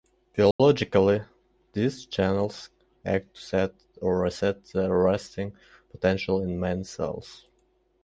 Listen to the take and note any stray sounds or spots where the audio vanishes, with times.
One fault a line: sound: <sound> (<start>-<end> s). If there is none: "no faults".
sound: dropout (0.5-0.6 s)